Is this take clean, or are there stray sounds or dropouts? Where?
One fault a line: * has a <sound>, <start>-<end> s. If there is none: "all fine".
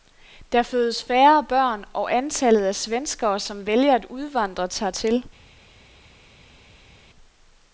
all fine